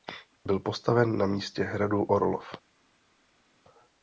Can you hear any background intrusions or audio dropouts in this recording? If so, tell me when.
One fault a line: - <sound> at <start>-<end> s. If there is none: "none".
none